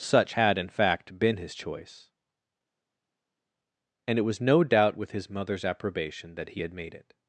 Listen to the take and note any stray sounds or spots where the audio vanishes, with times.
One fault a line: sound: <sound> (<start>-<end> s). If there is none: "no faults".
no faults